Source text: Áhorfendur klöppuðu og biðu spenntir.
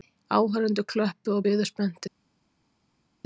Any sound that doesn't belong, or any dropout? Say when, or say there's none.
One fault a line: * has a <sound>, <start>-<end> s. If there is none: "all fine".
all fine